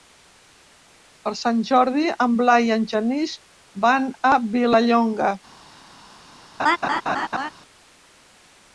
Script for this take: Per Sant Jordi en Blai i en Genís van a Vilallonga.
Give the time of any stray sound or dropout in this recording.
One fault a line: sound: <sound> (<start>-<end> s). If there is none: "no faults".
sound: laugh (6.6-7.5 s)